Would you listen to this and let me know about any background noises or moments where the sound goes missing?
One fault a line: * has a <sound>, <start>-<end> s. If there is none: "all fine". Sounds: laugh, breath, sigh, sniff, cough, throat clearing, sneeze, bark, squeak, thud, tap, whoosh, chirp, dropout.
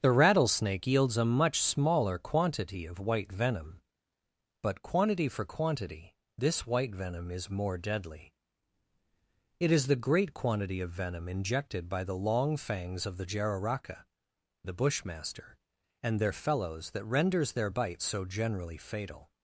all fine